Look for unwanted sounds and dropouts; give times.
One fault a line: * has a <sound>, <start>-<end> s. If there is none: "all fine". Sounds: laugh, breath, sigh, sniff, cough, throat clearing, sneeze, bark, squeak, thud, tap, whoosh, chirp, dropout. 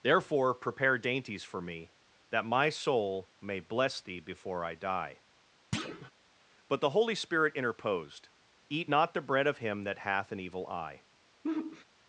* has a thud, 5.7-6.1 s
* has a sigh, 11.4-11.8 s